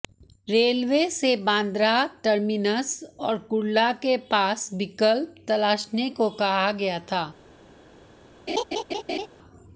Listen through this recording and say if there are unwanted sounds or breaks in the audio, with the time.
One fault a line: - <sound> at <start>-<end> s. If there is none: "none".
- laugh at 8.5-9.3 s